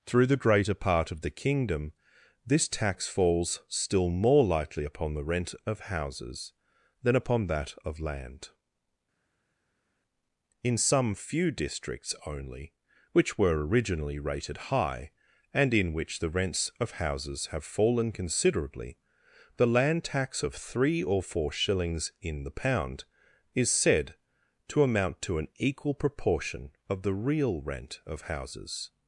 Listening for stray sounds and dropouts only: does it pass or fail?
pass